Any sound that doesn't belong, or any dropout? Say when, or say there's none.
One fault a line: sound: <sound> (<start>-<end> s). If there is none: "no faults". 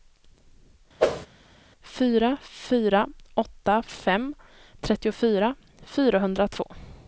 sound: whoosh (1.0-1.3 s)